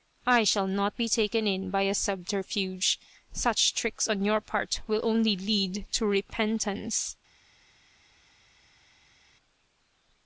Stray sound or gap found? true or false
false